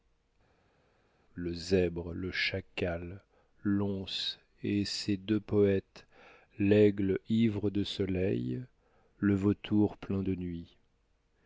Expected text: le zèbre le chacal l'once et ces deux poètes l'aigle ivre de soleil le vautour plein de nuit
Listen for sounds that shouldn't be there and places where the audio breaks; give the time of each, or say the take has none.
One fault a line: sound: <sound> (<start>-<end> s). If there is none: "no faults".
no faults